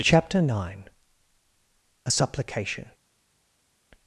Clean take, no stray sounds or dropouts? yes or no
yes